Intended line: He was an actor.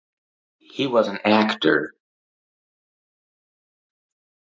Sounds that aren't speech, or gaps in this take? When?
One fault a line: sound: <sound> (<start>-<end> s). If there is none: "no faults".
no faults